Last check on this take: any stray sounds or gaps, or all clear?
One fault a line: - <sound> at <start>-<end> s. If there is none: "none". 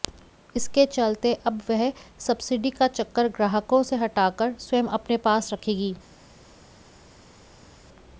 none